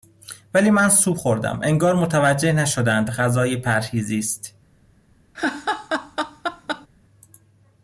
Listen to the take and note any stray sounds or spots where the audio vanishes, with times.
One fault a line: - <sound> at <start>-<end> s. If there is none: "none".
- laugh at 5.3-6.9 s